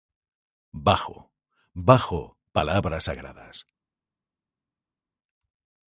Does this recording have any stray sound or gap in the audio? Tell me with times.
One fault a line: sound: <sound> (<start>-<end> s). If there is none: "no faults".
no faults